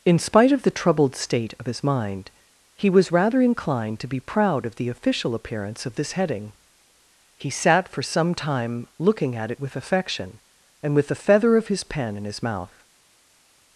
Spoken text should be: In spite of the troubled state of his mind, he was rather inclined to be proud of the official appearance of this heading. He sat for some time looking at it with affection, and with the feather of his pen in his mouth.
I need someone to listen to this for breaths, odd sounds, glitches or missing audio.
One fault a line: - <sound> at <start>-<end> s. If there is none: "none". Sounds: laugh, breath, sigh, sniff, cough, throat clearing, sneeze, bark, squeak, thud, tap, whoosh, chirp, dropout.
none